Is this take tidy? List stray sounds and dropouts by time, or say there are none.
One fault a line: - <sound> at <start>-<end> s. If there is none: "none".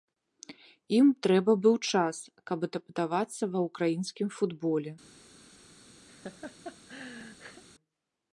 - laugh at 6.1-7.6 s